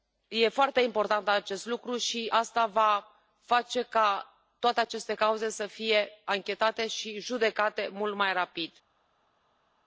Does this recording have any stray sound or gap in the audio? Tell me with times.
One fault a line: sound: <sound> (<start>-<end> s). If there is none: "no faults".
no faults